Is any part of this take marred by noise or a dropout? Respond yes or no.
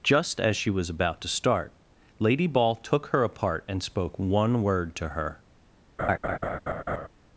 yes